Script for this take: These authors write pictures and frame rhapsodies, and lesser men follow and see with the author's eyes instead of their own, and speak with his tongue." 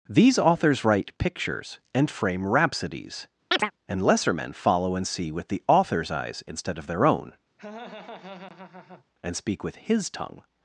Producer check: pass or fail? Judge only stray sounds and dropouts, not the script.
fail